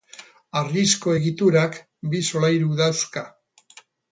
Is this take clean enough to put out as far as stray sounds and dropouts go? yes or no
yes